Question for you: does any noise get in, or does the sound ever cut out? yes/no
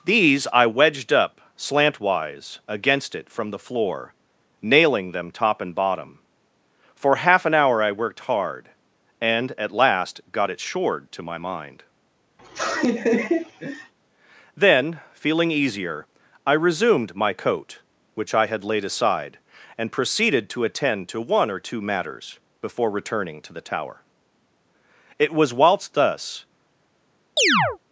yes